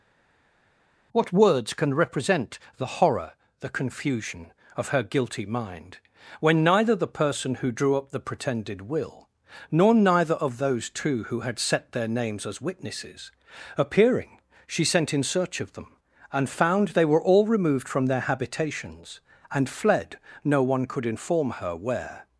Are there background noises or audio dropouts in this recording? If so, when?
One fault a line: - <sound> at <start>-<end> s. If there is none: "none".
none